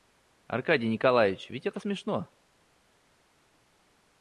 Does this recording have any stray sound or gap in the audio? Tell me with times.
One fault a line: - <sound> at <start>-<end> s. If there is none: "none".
none